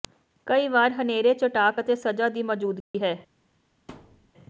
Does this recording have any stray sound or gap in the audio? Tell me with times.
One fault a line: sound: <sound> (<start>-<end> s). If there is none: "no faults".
sound: dropout (2.8-2.9 s)
sound: thud (3.9-4.3 s)